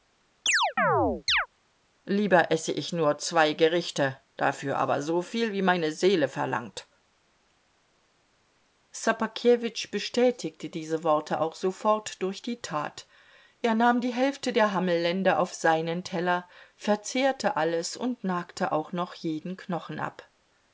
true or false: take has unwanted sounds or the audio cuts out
true